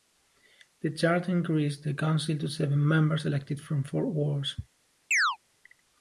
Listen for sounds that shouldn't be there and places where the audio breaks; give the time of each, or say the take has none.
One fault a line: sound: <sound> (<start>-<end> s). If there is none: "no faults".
sound: chirp (5.1-5.4 s)